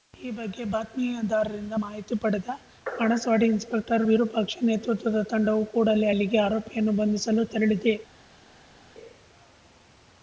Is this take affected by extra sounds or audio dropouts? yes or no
no